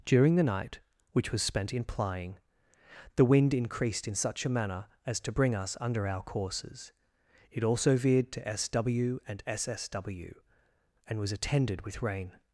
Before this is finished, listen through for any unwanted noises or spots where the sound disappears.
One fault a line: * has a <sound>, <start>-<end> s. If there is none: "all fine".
all fine